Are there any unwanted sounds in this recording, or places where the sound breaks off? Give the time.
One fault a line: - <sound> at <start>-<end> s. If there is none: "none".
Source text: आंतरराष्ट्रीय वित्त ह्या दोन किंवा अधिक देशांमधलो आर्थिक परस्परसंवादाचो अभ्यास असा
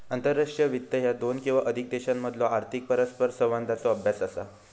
none